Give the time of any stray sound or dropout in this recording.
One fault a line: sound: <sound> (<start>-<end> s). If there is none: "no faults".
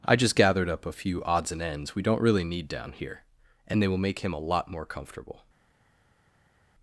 no faults